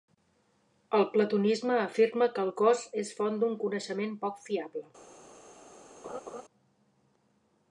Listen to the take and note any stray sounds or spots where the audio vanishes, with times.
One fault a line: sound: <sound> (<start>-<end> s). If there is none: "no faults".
sound: laugh (6.0-6.4 s)